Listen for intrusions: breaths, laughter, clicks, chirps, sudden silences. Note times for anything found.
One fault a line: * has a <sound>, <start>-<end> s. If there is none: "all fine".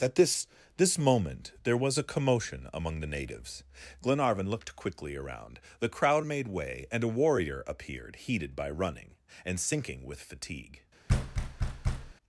* has a thud, 11.1-12.1 s